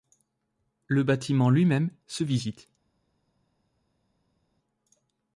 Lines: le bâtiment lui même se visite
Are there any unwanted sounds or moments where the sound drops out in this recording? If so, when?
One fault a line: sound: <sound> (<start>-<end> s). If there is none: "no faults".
no faults